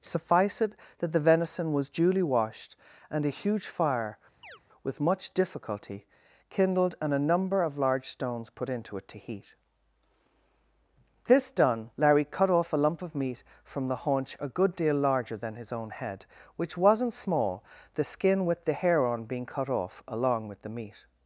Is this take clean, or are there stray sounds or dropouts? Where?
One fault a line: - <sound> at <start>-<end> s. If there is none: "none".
- chirp at 4.4-4.6 s